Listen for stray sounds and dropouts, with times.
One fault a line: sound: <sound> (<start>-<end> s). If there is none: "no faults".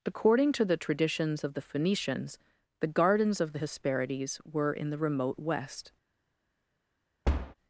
sound: thud (7.2-7.5 s)